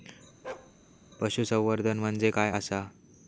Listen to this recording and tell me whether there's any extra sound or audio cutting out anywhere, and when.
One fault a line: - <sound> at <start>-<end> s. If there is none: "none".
- bark at 0.4-0.7 s